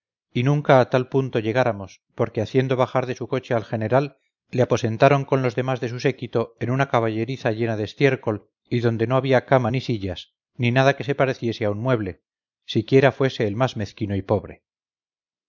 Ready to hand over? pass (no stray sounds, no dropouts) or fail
pass